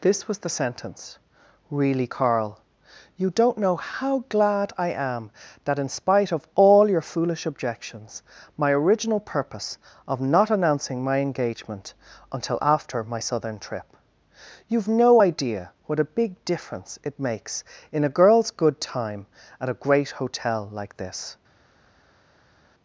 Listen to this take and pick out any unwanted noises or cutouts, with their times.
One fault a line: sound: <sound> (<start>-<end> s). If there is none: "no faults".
no faults